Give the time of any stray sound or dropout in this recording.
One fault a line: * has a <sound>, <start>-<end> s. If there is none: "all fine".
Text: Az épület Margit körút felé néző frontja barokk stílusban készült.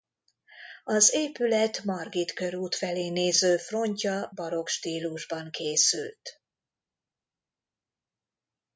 all fine